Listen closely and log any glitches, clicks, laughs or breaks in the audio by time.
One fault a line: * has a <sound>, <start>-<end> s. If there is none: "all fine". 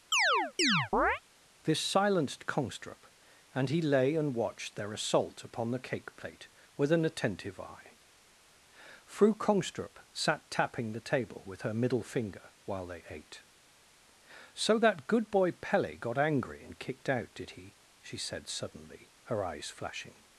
* has a chirp, 0.1-1.2 s